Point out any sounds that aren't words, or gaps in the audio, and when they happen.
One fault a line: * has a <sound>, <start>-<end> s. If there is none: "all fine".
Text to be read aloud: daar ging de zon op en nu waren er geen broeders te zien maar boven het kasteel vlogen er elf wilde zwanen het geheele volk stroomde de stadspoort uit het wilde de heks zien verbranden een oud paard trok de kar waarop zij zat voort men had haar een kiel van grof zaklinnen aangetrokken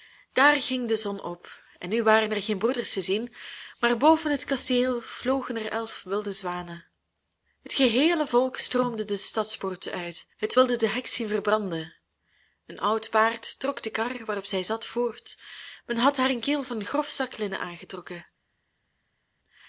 all fine